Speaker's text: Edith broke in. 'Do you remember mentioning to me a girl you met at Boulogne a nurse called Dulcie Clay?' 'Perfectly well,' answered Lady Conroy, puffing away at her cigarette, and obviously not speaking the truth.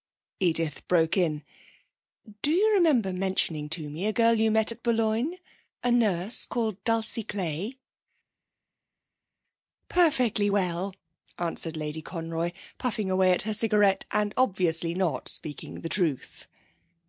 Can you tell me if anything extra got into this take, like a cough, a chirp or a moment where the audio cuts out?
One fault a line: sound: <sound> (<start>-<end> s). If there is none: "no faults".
no faults